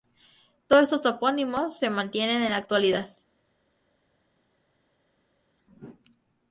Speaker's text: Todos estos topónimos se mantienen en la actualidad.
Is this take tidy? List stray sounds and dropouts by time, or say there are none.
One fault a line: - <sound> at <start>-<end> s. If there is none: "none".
none